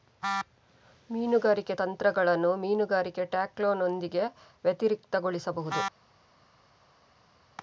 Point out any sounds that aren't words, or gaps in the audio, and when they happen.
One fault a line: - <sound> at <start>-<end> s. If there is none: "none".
none